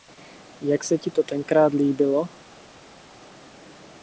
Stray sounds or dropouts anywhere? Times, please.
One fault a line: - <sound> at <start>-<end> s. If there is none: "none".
none